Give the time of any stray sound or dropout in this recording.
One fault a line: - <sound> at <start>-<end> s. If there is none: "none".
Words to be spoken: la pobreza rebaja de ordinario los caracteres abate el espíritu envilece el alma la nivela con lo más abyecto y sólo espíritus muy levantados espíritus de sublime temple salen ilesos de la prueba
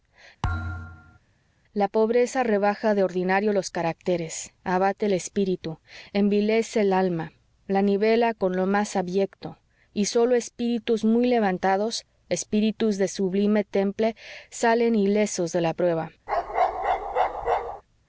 - thud at 0.4-1.2 s
- bark at 16.3-17.8 s